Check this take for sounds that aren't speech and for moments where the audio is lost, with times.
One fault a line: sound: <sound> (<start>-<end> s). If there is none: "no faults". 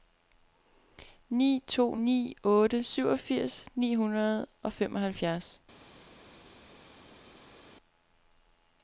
no faults